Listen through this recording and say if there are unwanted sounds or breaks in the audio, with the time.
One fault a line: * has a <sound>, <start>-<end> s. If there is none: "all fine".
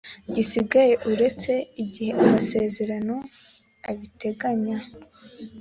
all fine